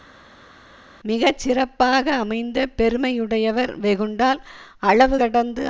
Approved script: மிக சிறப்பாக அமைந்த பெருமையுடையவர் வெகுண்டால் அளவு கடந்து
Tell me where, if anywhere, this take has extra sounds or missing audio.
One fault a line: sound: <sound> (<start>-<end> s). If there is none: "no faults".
no faults